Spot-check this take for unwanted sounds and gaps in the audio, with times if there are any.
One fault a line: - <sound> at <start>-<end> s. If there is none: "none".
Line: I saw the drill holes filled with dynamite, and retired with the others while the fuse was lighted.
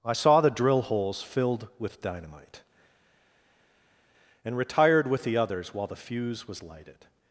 none